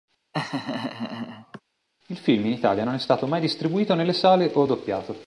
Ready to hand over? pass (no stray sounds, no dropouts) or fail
fail